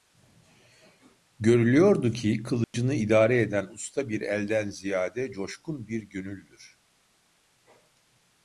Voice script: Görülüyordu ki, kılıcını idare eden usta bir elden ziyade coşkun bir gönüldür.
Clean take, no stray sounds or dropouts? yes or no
no